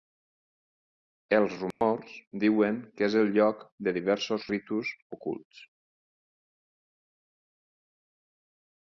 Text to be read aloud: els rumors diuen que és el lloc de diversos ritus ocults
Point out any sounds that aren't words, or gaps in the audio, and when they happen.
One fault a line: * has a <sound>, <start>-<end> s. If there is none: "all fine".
* has a dropout, 1.7-1.8 s